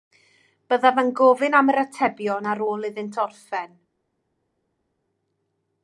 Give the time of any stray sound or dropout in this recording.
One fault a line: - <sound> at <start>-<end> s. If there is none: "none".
none